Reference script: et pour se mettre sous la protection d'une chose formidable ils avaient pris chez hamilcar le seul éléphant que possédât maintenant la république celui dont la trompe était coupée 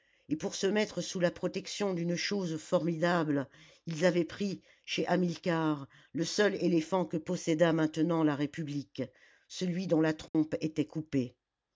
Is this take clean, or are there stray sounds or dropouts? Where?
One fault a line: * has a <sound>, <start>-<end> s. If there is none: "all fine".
* has a dropout, 10.3-10.3 s